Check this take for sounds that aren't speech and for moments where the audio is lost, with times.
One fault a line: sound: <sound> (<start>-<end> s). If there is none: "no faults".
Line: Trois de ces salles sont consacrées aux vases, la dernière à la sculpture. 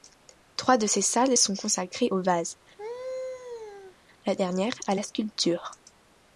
sound: laugh (2.8-4.0 s)